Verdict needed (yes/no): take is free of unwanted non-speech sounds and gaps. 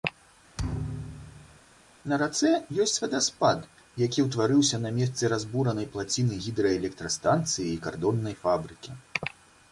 no